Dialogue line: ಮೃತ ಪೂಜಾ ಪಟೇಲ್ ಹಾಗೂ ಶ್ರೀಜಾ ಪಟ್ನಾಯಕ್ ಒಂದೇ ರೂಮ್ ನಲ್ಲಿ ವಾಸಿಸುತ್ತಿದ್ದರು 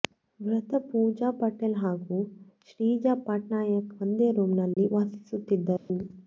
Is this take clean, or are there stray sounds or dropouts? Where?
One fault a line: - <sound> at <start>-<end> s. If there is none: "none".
- dropout at 4.7-4.8 s
- dropout at 5.8-5.9 s